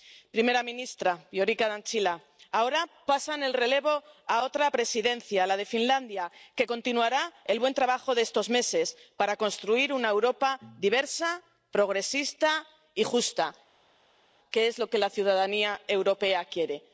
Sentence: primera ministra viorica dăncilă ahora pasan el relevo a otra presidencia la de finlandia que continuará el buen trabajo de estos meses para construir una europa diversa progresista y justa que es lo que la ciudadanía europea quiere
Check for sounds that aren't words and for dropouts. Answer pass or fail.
pass